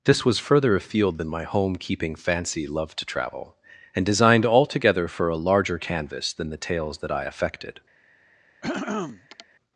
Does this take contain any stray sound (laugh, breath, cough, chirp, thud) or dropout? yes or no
yes